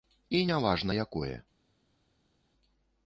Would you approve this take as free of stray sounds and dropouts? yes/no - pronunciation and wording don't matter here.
yes